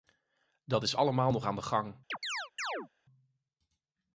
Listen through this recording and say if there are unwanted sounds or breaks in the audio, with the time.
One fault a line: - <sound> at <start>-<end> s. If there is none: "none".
- chirp at 2.1-2.9 s